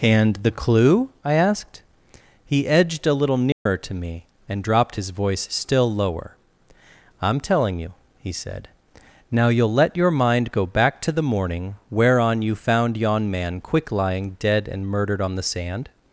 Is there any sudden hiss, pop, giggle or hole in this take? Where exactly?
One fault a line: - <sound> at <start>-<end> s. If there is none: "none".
- dropout at 3.5-3.7 s